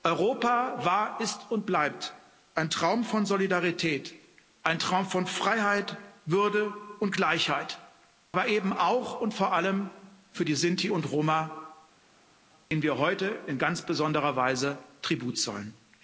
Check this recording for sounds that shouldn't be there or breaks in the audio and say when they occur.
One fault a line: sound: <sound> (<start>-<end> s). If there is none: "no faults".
no faults